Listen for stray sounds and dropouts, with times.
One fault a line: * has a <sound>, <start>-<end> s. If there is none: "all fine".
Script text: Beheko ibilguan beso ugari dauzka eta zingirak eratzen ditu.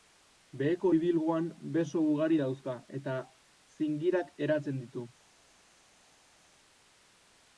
all fine